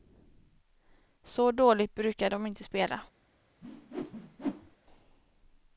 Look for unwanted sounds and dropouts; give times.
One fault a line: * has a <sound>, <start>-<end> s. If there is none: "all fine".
* has a whoosh, 3.6-4.8 s